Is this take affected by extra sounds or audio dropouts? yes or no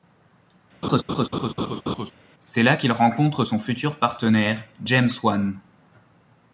yes